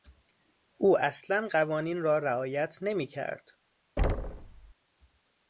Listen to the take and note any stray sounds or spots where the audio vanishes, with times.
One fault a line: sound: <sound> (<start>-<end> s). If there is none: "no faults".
sound: thud (4.0-4.7 s)